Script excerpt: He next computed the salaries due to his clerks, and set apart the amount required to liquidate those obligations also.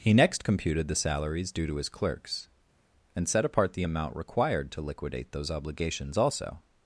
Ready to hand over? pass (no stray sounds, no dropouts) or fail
pass